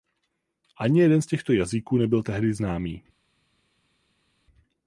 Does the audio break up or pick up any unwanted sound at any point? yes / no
no